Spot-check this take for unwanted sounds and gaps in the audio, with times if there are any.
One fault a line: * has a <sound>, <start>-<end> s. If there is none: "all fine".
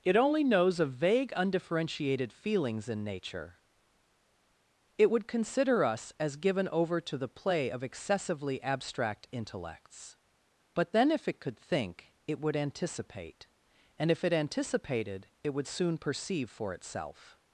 all fine